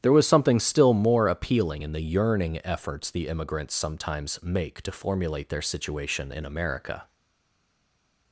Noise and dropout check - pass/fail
pass